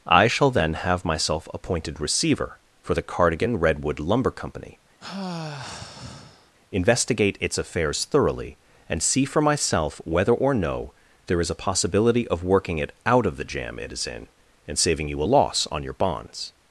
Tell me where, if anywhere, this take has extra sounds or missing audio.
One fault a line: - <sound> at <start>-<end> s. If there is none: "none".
- sigh at 5.0-6.5 s